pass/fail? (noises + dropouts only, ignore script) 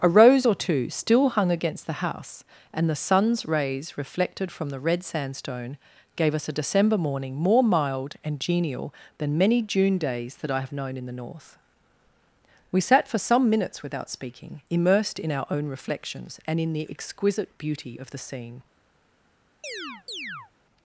fail